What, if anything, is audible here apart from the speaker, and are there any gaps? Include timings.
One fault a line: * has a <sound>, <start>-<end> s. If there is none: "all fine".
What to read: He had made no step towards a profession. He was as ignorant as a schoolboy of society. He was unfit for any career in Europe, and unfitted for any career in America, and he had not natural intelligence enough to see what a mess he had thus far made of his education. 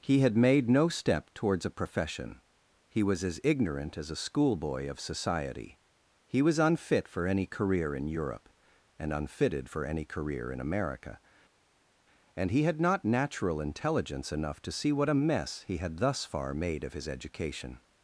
all fine